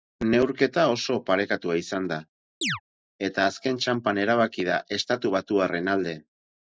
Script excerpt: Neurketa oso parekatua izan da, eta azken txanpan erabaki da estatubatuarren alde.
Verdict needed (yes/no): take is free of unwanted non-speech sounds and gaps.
no